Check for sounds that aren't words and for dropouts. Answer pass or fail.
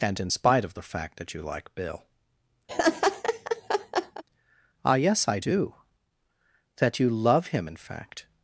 fail